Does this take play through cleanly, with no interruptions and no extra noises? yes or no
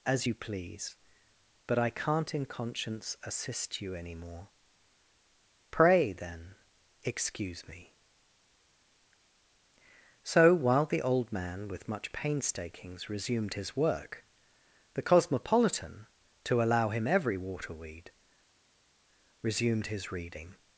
yes